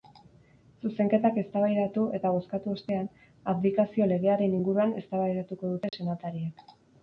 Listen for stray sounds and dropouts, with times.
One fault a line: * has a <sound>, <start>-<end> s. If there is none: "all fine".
* has a dropout, 5.9-5.9 s